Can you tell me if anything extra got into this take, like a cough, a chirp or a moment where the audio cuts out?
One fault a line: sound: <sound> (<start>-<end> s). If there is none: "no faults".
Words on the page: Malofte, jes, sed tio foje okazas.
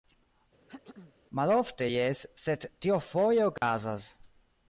sound: throat clearing (0.7-1.1 s)
sound: dropout (3.6-3.6 s)